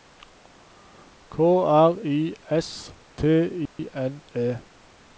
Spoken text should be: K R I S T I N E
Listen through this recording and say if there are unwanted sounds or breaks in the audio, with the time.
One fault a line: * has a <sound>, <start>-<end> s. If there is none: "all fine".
* has a dropout, 3.7-3.8 s